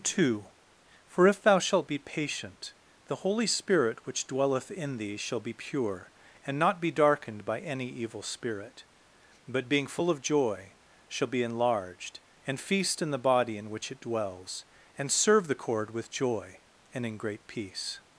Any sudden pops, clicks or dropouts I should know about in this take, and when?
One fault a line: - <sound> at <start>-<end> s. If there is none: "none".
none